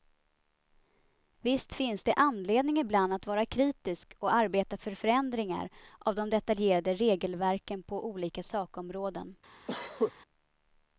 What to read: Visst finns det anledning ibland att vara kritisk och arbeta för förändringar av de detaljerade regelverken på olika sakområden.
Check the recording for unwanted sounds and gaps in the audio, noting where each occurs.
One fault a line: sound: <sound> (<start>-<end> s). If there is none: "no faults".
sound: cough (9.7-10.1 s)